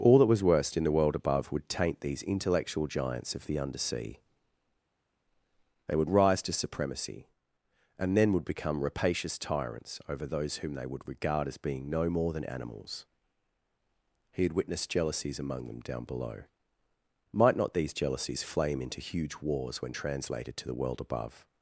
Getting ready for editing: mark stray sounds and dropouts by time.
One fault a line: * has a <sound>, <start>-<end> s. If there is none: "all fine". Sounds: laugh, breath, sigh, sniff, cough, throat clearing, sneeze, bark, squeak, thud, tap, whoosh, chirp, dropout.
all fine